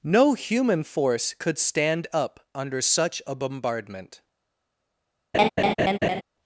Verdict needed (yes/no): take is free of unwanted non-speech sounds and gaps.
no